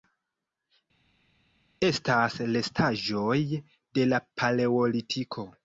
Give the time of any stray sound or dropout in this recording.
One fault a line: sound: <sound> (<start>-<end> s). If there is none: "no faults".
no faults